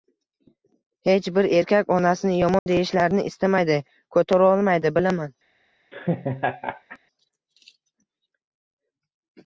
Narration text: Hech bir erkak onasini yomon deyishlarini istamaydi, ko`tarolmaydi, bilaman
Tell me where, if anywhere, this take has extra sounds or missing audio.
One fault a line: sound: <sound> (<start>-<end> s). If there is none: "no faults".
sound: dropout (2.6-2.7 s)
sound: laugh (5.9-7.0 s)